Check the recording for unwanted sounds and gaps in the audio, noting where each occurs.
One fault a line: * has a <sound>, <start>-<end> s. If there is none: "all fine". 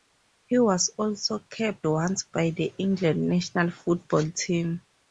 all fine